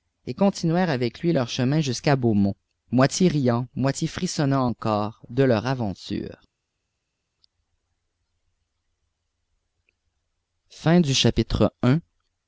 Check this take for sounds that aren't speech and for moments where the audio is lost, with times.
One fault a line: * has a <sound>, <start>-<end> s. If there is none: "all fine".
all fine